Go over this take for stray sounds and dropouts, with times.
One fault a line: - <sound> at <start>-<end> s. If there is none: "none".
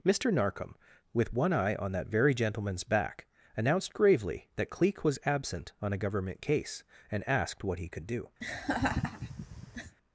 - laugh at 8.4-10.0 s